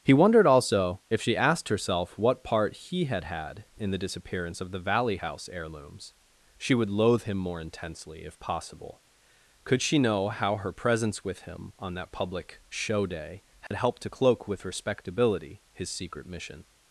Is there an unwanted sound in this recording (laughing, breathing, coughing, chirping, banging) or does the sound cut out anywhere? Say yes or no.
yes